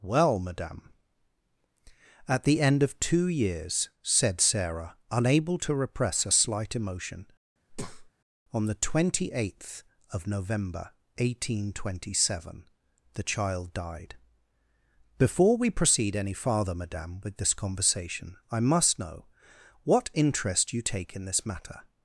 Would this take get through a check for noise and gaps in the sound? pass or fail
fail